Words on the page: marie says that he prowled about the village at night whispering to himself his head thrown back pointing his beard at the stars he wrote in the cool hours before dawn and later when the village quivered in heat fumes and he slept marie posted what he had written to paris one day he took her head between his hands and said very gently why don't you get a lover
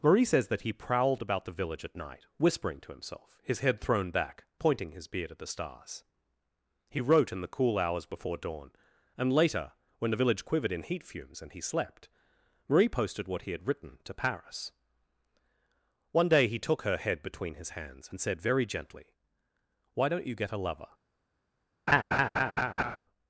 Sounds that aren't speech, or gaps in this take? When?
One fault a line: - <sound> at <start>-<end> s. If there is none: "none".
- laugh at 21.9-23.0 s